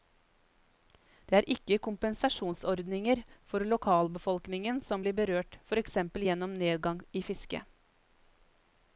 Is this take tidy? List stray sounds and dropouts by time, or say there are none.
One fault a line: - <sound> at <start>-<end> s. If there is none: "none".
none